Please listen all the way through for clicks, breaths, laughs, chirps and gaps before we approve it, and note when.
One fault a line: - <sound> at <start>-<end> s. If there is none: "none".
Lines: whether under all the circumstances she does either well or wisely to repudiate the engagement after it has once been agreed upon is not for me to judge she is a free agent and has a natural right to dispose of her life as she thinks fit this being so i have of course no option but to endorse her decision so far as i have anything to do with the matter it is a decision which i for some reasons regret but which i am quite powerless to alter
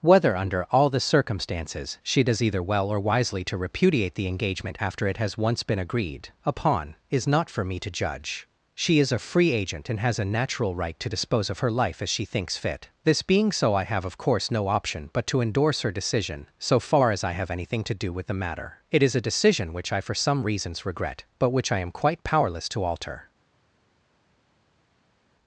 none